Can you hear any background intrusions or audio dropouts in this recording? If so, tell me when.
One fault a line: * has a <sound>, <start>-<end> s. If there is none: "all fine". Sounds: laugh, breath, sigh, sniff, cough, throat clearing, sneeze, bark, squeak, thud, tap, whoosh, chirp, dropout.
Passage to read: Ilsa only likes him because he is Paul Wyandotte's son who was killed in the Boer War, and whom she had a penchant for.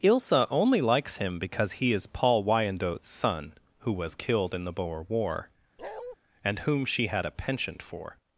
* has a bark, 5.8-6.2 s